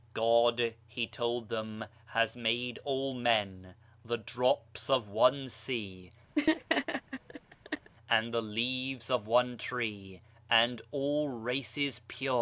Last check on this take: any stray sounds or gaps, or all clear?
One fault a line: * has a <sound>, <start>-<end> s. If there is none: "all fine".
* has a laugh, 6.4-7.9 s